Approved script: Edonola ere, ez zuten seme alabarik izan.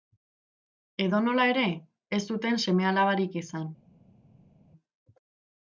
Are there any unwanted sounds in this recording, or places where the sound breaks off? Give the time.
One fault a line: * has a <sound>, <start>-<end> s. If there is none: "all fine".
all fine